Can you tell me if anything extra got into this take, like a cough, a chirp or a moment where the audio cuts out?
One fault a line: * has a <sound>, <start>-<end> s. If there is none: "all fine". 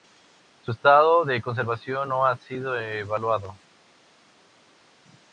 all fine